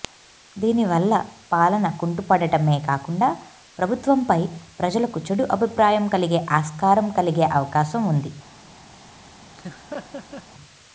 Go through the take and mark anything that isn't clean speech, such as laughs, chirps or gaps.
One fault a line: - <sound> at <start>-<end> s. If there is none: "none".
- laugh at 9.5-10.5 s